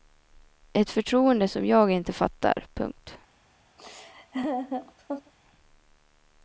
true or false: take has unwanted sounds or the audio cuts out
true